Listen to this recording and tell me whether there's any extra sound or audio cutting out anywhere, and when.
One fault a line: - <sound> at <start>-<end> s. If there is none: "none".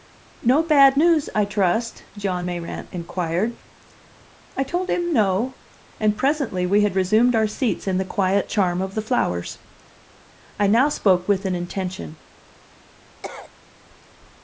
- cough at 13.2-13.5 s